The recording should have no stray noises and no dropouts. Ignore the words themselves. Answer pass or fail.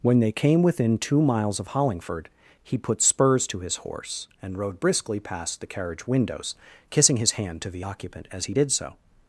pass